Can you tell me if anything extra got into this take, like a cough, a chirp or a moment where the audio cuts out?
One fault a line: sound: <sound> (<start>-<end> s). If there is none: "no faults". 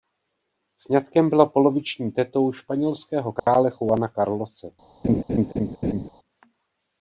sound: dropout (3.4-3.5 s)
sound: laugh (5.0-6.1 s)